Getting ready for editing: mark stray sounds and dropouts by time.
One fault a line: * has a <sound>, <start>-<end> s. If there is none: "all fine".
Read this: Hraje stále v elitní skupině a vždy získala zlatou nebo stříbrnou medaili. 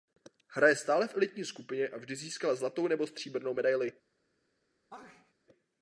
* has a sneeze, 4.9-5.3 s